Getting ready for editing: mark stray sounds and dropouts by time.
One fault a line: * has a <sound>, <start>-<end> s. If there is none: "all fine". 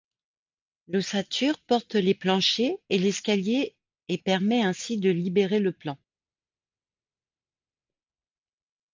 all fine